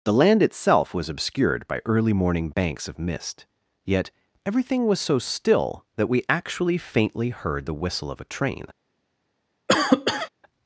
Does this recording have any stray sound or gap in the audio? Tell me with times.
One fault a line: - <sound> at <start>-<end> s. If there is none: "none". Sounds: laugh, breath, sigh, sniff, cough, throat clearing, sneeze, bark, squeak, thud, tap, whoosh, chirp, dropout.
- cough at 9.7-10.3 s